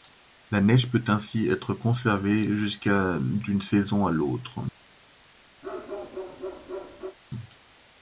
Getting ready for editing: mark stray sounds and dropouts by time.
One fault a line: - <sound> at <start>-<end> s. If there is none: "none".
- bark at 5.6-7.2 s